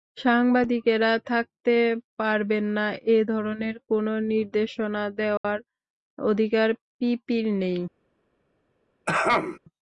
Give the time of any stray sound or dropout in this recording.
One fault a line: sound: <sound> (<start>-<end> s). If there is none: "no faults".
sound: dropout (5.4-5.4 s)
sound: throat clearing (9.1-9.6 s)